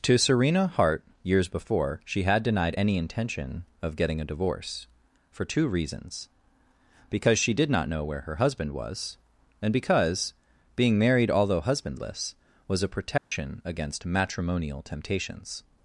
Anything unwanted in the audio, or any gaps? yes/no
yes